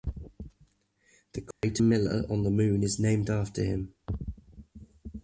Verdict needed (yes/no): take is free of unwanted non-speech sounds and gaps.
no